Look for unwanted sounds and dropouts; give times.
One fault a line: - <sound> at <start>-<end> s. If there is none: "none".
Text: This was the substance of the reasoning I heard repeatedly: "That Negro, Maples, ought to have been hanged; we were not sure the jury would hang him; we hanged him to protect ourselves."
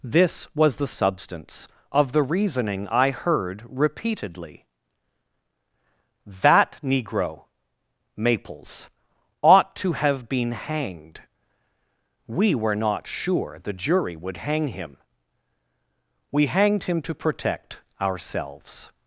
none